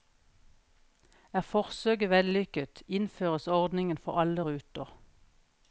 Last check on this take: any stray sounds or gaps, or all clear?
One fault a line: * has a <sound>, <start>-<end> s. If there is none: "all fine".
all fine